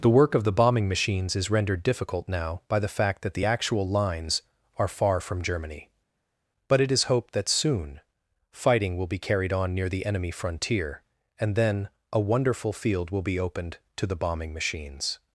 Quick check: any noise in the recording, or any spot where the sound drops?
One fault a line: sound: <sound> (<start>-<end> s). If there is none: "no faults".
no faults